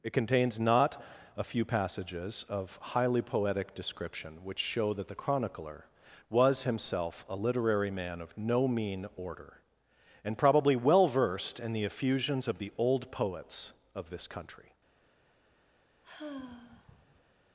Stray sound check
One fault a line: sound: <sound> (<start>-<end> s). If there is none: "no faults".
sound: sigh (16.0-17.3 s)